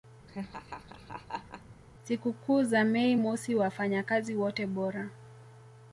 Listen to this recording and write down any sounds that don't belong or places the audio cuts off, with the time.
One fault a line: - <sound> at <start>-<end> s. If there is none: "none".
- laugh at 0.3-1.8 s